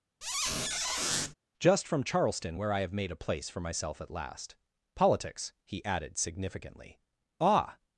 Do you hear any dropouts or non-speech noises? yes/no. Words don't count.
yes